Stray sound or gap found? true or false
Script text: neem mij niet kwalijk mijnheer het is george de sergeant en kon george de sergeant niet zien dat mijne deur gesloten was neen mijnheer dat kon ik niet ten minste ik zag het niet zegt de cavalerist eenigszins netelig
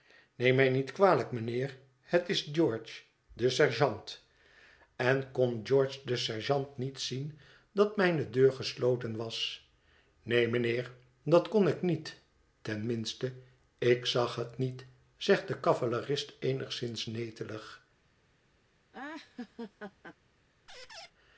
true